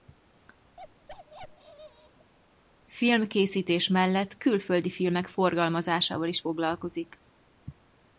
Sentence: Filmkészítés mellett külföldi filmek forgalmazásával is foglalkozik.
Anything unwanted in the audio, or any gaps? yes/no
yes